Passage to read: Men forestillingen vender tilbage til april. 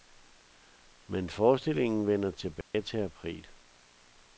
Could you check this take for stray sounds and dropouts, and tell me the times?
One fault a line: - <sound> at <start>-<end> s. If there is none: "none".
- dropout at 2.6-2.7 s